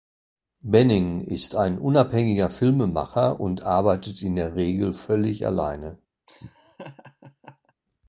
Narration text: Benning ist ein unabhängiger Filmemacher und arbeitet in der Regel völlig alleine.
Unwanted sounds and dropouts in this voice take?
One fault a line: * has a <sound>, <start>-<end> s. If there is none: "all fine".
* has a laugh, 6.3-7.7 s